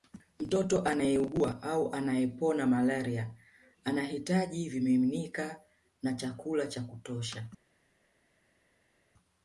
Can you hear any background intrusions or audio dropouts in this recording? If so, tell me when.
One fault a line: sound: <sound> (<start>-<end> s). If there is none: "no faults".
no faults